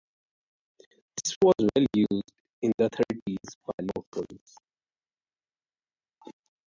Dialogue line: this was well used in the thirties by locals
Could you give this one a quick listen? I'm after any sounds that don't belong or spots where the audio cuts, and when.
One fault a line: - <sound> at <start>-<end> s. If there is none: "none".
none